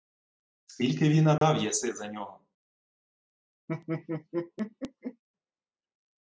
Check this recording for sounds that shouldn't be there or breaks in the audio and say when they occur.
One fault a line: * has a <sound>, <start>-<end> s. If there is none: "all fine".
* has a dropout, 1.4-1.4 s
* has a laugh, 3.7-5.2 s